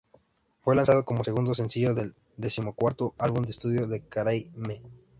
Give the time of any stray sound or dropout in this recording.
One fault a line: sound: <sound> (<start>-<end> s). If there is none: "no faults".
no faults